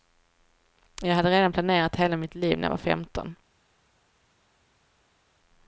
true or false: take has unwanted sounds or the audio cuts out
false